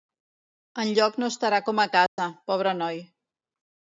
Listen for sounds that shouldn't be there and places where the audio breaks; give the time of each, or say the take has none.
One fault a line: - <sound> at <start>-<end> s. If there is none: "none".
- dropout at 2.1-2.2 s